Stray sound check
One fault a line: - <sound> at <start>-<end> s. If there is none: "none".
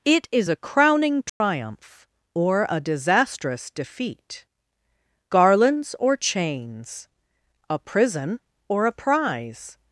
- dropout at 1.3-1.4 s